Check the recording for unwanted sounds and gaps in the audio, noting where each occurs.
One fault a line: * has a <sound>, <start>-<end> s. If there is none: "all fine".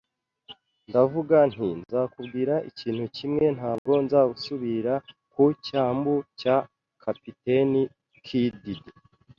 * has a dropout, 3.8-3.9 s